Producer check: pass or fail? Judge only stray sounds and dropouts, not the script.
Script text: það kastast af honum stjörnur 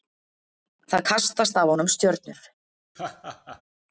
fail